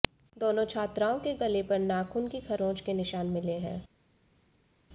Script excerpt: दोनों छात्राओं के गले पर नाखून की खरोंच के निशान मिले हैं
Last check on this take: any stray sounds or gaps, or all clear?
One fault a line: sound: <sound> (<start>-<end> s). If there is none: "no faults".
no faults